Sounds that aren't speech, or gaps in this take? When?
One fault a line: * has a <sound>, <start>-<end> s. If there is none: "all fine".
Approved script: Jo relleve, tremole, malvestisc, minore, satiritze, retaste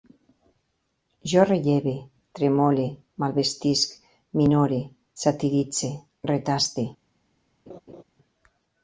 * has a laugh, 7.7-8.0 s